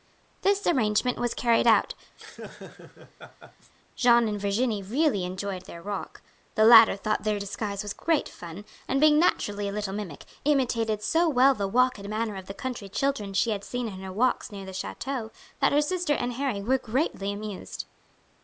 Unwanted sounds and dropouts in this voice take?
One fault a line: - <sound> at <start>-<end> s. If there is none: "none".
- laugh at 2.2-3.7 s